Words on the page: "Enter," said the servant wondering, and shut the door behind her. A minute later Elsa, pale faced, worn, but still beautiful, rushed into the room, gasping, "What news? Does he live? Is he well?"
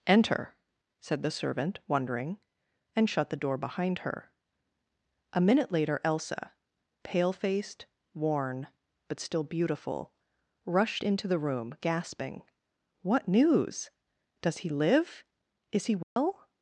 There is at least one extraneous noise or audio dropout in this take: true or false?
true